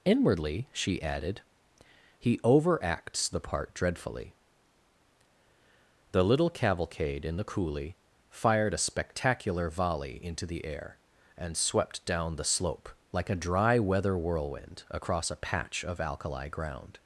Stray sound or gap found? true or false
false